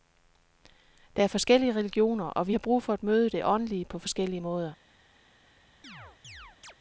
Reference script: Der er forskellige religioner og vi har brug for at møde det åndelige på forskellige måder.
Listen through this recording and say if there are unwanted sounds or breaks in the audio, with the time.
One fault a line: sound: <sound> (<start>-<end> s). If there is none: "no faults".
sound: chirp (5.8-6.7 s)